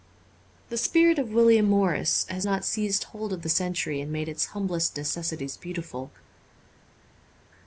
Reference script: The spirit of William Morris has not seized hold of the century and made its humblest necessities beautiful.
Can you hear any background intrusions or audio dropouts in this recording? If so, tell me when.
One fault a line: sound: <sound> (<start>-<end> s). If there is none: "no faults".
no faults